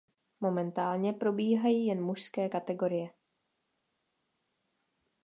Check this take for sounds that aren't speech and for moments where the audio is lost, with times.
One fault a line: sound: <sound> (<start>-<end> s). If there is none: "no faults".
no faults